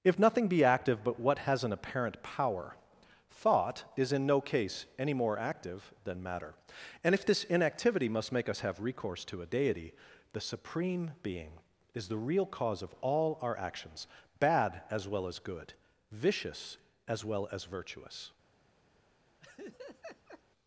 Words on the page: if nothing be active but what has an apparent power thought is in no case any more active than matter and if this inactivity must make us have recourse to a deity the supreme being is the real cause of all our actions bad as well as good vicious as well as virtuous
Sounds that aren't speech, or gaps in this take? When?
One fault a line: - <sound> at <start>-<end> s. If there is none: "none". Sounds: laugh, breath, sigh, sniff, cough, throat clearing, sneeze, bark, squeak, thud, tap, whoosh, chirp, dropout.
- laugh at 19.4-20.4 s